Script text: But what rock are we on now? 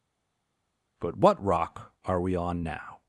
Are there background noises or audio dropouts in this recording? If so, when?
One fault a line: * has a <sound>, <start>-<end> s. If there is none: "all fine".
all fine